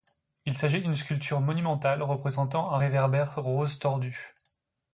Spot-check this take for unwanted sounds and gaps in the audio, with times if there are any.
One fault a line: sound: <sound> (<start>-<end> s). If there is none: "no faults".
no faults